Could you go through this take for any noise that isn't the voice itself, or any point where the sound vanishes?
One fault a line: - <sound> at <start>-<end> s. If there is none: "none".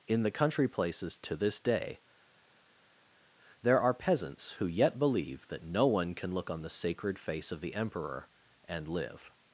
none